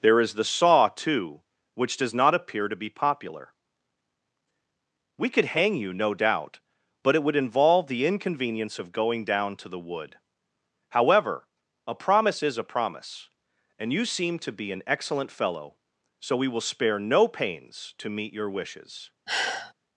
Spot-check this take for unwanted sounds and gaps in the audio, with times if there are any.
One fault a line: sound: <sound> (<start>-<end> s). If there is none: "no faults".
sound: sigh (19.3-19.7 s)